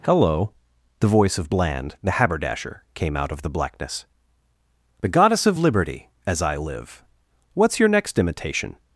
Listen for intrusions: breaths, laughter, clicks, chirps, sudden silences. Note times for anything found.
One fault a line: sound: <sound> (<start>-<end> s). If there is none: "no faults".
no faults